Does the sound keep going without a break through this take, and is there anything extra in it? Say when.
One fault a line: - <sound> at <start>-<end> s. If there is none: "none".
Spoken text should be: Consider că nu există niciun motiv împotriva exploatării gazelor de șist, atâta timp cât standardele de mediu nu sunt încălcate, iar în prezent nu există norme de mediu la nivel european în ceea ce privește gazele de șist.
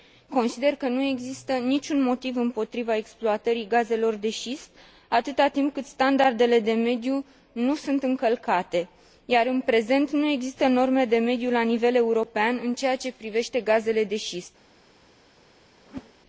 - whoosh at 15.8-16.1 s